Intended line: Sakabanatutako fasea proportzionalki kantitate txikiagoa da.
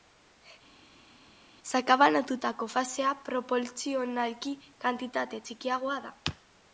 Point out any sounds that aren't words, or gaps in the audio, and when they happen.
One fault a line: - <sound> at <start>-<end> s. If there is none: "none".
none